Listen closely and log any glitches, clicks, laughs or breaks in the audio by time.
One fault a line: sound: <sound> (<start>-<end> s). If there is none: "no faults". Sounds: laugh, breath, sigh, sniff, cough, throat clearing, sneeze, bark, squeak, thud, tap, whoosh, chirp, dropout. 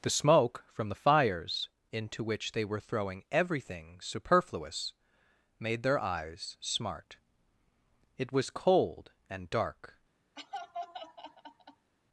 sound: laugh (10.4-11.9 s)